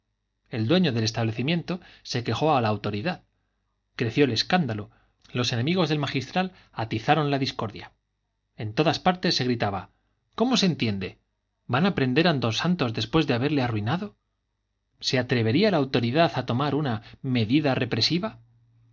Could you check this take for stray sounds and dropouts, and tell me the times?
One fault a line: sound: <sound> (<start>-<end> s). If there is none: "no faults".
no faults